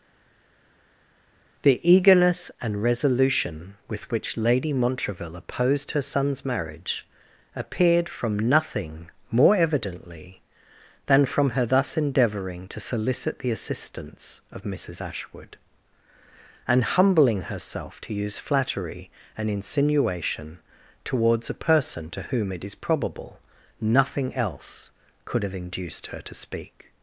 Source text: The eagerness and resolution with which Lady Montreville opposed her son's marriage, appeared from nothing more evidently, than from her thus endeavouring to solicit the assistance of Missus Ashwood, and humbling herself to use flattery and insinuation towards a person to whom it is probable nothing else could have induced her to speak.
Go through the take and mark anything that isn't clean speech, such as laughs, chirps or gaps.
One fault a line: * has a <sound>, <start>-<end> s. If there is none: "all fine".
all fine